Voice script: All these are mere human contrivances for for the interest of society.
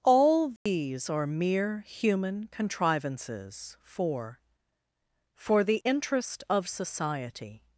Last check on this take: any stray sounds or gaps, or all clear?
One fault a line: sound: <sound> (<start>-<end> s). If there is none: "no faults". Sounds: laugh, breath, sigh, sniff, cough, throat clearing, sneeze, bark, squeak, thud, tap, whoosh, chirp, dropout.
sound: dropout (0.6-0.7 s)